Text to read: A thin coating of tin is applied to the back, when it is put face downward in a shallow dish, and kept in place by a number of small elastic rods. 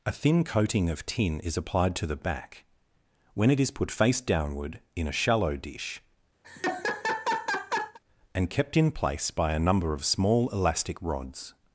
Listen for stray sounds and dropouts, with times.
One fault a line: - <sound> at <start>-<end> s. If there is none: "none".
- laugh at 6.4-8.0 s